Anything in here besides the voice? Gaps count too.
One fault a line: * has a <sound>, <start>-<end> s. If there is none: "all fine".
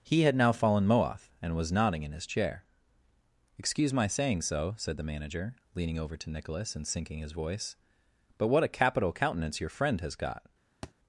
* has a thud, 10.8-10.9 s